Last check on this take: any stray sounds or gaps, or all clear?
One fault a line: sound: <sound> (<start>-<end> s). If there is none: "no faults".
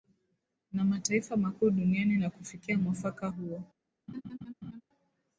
sound: laugh (4.1-4.8 s)